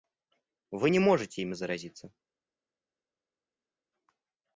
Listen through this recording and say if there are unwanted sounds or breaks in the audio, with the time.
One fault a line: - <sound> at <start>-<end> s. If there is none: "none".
none